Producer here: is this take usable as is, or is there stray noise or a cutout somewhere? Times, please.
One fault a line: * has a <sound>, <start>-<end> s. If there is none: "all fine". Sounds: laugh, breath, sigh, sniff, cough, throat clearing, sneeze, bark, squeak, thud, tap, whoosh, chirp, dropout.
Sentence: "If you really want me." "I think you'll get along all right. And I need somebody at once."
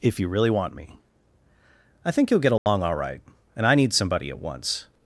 * has a dropout, 2.6-2.7 s